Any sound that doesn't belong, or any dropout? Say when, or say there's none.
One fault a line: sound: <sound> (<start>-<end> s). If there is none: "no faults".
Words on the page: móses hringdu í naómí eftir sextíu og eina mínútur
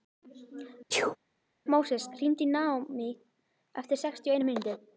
sound: sneeze (0.9-1.2 s)